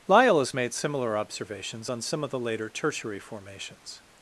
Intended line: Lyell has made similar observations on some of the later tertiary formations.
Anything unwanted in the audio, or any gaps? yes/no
no